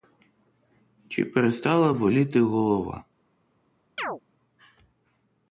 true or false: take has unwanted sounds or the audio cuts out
true